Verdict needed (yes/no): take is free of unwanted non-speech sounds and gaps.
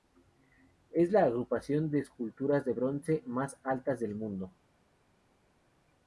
yes